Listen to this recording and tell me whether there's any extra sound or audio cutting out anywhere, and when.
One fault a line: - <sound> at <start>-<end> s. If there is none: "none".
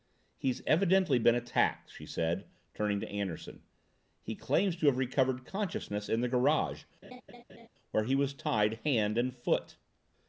- laugh at 7.0-7.7 s